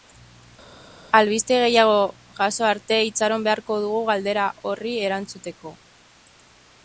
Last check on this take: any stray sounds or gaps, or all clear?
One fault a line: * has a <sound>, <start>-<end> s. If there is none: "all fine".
all fine